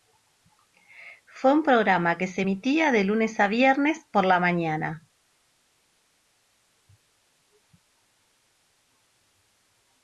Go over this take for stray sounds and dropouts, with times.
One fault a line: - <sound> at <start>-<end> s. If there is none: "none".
none